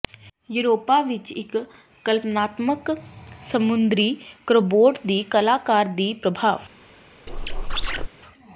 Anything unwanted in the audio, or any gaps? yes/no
yes